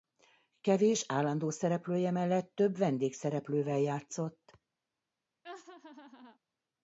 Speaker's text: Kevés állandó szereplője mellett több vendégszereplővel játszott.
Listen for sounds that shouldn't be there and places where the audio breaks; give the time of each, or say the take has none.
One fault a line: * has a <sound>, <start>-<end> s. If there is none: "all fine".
* has a laugh, 5.4-6.4 s